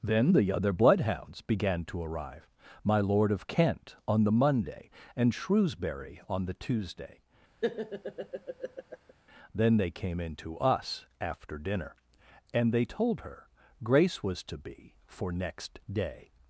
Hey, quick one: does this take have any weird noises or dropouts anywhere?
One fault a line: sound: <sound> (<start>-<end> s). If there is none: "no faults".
sound: laugh (7.6-9.1 s)